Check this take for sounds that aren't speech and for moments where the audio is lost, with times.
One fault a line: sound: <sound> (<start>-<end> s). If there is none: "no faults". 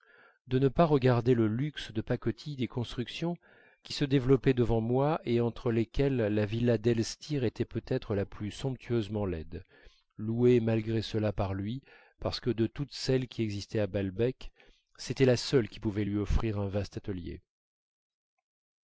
no faults